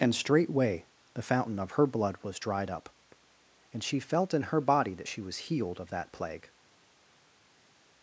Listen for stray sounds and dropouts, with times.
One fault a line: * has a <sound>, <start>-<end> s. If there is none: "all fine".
all fine